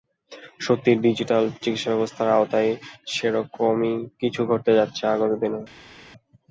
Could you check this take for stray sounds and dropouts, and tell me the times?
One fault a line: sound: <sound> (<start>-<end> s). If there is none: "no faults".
no faults